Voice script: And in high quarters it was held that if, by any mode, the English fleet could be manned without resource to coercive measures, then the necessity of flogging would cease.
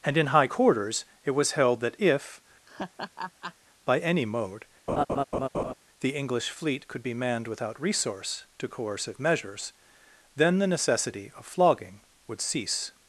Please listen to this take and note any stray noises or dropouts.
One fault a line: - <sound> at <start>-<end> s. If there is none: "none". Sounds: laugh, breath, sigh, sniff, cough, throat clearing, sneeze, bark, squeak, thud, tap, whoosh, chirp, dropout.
- laugh at 2.7-3.5 s
- laugh at 4.9-5.7 s